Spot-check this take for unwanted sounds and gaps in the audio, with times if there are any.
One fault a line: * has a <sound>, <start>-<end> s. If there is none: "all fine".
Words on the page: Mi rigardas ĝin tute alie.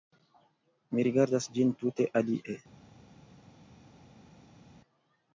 all fine